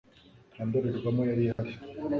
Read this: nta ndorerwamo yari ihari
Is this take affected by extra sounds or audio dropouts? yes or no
yes